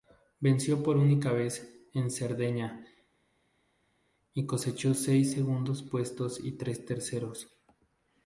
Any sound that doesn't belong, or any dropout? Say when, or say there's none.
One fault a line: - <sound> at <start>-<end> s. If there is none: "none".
none